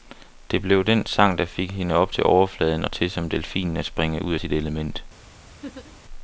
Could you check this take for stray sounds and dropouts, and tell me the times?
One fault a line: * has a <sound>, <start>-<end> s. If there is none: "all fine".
* has a laugh, 5.6-6.0 s